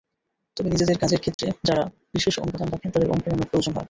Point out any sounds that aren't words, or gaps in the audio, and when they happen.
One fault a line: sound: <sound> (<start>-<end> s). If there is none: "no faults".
sound: dropout (1.3-1.4 s)